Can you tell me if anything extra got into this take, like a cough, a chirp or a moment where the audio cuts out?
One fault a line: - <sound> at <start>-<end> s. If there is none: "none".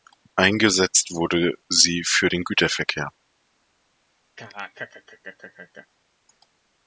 - laugh at 4.4-5.9 s